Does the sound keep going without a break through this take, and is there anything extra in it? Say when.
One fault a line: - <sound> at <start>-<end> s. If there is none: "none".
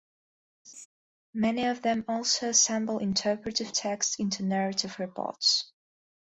- laugh at 0.6-0.9 s